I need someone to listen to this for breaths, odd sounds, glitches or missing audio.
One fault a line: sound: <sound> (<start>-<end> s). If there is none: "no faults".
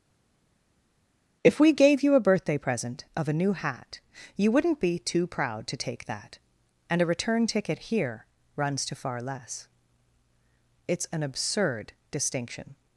no faults